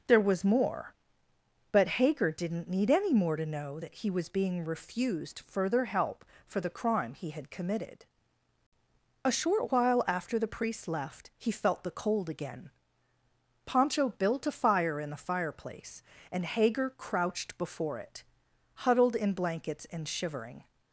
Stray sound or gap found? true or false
false